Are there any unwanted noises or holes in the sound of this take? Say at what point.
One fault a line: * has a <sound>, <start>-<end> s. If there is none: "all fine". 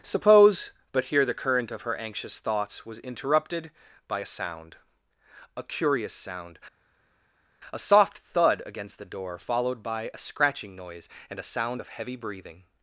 all fine